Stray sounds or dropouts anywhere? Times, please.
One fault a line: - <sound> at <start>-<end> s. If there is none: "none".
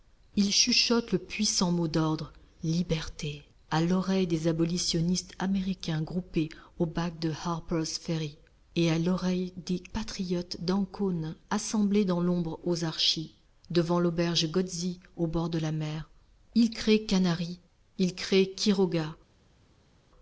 none